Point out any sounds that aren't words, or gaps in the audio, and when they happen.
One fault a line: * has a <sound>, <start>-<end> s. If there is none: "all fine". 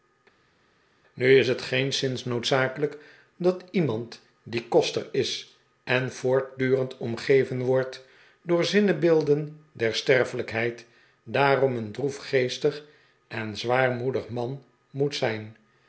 all fine